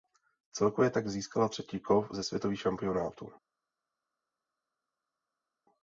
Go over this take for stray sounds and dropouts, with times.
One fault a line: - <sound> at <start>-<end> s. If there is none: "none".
none